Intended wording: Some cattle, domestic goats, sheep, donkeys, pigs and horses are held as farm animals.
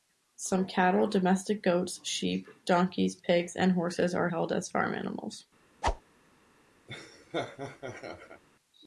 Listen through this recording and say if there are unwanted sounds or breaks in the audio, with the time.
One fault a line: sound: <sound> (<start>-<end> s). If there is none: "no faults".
sound: whoosh (5.8-6.0 s)
sound: laugh (6.9-8.4 s)